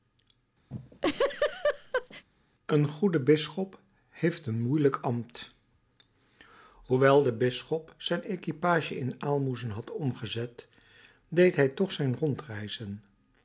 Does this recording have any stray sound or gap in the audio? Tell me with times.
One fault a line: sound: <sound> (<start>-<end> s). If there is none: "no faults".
sound: laugh (0.7-2.2 s)